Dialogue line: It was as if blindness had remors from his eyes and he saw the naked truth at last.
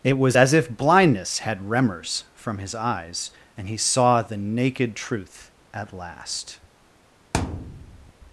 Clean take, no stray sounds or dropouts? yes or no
no